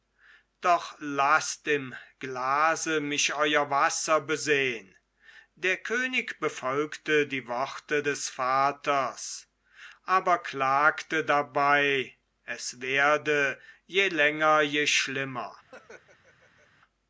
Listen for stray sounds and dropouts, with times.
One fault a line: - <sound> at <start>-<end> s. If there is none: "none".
- laugh at 15.7-16.7 s